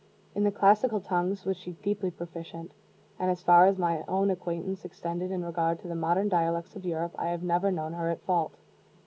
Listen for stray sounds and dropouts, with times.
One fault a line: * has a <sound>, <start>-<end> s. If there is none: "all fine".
all fine